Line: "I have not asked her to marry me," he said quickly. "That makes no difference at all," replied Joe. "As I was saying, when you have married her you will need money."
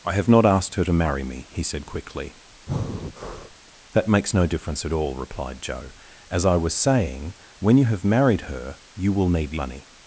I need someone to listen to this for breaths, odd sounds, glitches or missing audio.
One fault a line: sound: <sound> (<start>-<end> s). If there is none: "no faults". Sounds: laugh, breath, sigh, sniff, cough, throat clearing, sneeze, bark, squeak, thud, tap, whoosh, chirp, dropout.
sound: breath (2.7-3.6 s)